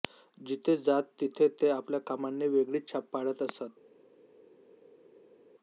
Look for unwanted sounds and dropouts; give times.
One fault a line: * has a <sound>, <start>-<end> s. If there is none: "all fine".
all fine